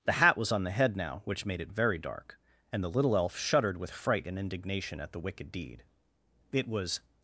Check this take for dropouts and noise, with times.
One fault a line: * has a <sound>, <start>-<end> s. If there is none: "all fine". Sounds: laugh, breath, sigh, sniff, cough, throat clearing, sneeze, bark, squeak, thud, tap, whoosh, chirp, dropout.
all fine